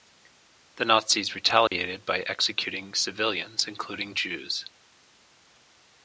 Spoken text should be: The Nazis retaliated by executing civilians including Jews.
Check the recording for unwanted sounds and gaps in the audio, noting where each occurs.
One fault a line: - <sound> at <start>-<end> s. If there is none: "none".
- dropout at 1.7-1.7 s